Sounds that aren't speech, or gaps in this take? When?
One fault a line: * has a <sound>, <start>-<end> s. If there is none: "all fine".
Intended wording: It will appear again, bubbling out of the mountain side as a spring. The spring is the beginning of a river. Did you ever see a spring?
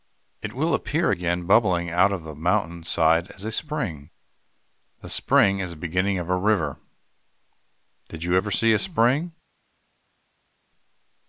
all fine